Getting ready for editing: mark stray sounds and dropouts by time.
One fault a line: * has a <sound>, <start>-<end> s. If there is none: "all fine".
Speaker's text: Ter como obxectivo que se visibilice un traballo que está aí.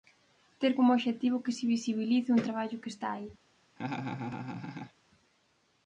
* has a laugh, 3.8-4.9 s